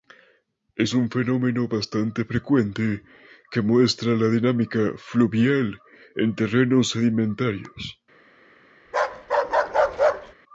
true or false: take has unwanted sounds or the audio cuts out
true